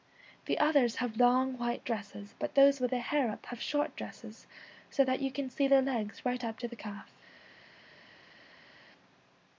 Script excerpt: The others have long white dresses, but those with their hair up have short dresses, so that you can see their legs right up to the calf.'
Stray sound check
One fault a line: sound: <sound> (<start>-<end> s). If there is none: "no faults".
no faults